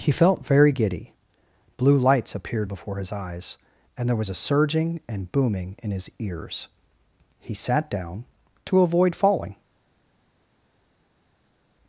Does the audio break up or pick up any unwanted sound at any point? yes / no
no